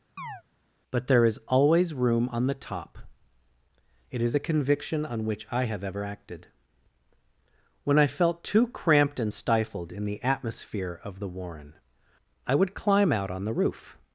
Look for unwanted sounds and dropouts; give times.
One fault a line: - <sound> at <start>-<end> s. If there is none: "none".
- chirp at 0.2-0.4 s